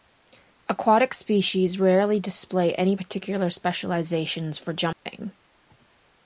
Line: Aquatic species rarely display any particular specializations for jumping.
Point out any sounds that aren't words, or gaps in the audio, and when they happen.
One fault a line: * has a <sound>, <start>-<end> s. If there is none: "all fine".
* has a dropout, 4.9-5.1 s